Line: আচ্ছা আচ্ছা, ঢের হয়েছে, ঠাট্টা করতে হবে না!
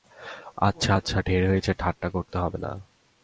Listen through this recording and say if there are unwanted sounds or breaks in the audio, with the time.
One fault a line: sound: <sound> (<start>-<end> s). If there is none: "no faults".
no faults